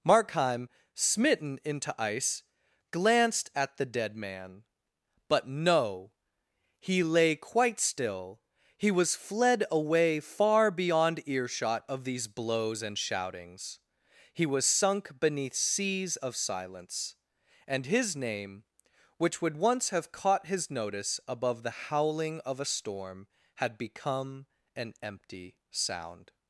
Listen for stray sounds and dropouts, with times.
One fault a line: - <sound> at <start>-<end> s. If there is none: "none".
none